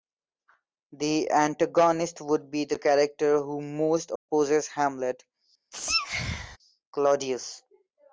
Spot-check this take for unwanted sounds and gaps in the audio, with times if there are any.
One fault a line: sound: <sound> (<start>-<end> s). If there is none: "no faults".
sound: dropout (4.2-4.3 s)
sound: sneeze (5.7-6.6 s)